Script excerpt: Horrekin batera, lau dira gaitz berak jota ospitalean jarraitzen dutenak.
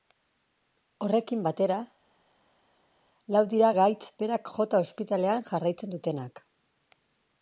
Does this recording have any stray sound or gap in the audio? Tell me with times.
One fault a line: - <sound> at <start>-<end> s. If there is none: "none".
none